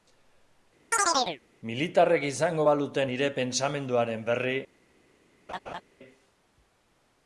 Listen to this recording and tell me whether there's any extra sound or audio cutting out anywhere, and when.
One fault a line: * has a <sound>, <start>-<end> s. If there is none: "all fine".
* has a chirp, 0.9-1.4 s
* has a laugh, 5.5-5.8 s